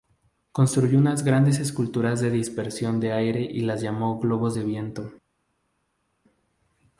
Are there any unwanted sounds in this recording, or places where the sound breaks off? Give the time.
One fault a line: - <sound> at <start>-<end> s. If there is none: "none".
none